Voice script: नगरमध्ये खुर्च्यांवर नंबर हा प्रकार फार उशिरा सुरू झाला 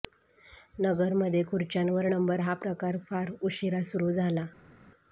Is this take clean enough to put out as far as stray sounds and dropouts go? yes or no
yes